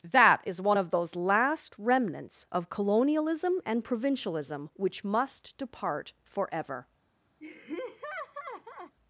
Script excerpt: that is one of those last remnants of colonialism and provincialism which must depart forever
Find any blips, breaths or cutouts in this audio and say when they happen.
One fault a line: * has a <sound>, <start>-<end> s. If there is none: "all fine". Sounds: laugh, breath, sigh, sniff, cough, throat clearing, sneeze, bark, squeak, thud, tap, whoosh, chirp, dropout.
* has a laugh, 7.4-8.9 s